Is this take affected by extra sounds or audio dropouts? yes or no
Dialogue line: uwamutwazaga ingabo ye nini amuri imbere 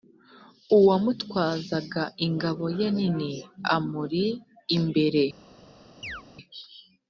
yes